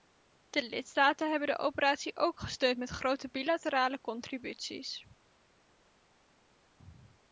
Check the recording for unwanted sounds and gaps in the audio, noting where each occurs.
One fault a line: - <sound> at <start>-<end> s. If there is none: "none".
none